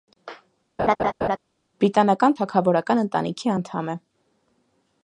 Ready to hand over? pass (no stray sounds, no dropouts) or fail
fail